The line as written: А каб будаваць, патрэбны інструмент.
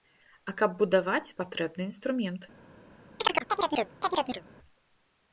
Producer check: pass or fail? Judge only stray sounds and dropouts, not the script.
fail